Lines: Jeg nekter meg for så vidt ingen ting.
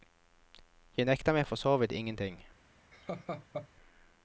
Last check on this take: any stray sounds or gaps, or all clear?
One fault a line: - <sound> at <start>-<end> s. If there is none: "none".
- laugh at 2.9-3.7 s